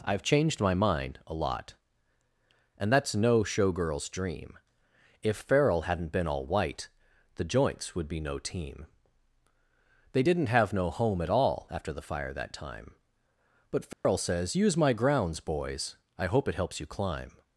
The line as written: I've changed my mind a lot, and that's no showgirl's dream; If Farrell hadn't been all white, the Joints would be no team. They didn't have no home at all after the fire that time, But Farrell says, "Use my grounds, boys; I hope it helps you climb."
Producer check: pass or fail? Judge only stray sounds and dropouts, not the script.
fail